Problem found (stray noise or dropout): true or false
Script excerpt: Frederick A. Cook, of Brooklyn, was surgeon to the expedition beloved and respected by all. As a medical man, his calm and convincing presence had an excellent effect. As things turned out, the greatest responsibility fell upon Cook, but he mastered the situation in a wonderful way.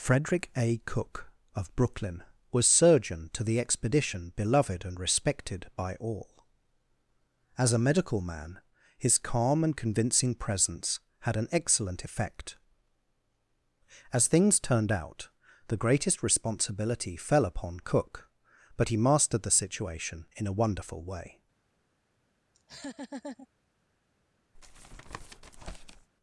true